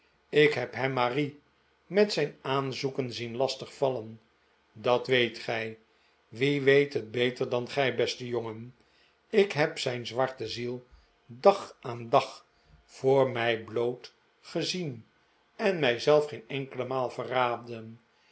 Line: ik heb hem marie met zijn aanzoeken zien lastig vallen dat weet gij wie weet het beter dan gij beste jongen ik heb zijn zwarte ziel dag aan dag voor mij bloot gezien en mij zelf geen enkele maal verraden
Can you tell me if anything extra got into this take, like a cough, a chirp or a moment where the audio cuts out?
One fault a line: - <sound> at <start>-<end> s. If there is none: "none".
none